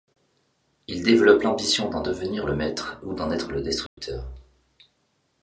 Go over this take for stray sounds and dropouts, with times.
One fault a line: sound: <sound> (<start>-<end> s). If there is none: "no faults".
sound: dropout (3.9-4.0 s)